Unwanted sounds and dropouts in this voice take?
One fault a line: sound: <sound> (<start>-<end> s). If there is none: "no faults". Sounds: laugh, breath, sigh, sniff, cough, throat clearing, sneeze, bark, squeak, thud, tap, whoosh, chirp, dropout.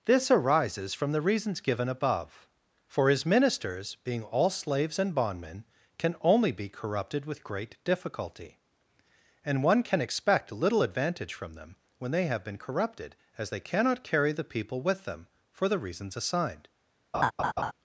sound: laugh (17.1-17.7 s)